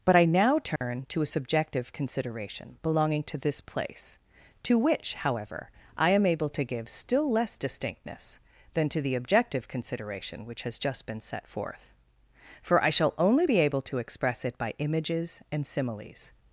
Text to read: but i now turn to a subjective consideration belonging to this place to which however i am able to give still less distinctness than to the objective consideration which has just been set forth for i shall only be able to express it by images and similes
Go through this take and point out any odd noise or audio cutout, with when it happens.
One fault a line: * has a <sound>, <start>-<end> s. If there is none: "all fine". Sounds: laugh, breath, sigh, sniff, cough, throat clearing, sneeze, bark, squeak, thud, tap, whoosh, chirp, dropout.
* has a dropout, 0.8-0.8 s